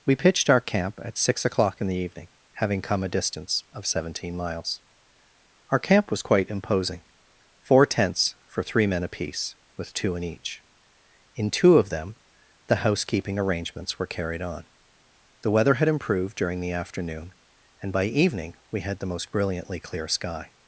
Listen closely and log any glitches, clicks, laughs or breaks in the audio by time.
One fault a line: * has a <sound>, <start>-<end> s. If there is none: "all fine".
all fine